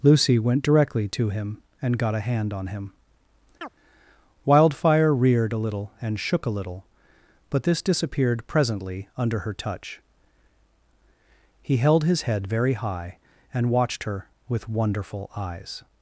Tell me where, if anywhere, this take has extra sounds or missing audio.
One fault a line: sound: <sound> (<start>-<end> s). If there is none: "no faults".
sound: chirp (3.6-3.7 s)